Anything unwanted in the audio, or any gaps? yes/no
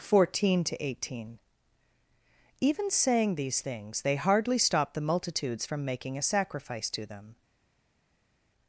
no